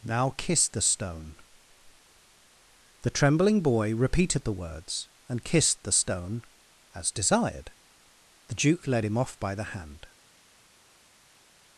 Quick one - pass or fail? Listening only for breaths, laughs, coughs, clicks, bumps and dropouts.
pass